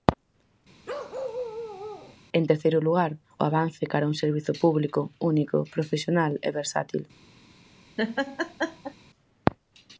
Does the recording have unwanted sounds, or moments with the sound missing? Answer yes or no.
yes